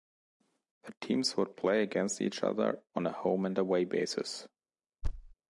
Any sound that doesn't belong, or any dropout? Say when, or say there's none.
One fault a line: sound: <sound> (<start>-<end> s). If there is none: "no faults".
sound: thud (5.0-5.3 s)